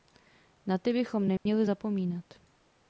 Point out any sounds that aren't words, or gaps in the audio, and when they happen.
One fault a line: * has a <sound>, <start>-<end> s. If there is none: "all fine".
* has a dropout, 1.4-1.5 s